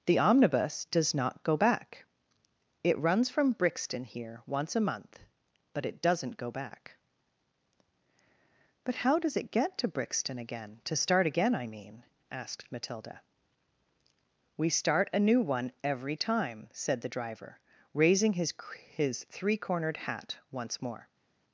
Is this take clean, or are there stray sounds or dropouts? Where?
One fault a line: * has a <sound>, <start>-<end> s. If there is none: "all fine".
all fine